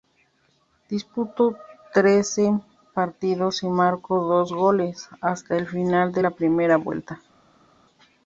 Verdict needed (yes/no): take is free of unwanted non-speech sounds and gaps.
yes